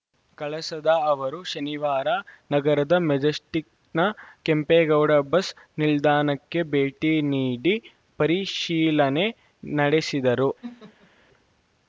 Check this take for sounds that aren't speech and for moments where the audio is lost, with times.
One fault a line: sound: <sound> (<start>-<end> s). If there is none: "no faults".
sound: laugh (10.6-11.1 s)